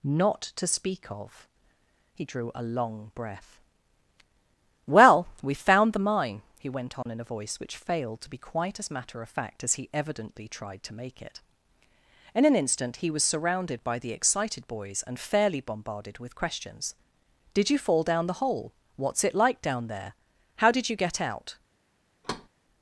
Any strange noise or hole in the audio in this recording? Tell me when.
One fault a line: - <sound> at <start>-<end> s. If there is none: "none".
- dropout at 7.0-7.1 s
- thud at 22.2-22.5 s